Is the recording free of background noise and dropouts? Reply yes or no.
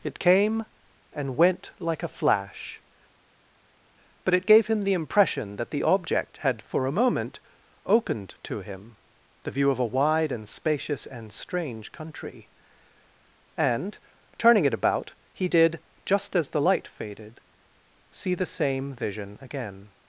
yes